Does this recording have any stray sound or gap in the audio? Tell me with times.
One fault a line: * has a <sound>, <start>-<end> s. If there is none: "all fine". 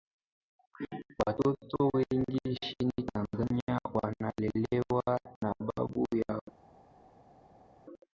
all fine